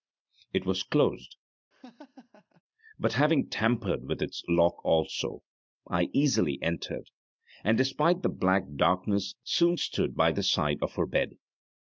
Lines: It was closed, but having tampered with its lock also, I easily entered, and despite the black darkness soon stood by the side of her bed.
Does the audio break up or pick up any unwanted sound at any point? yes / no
yes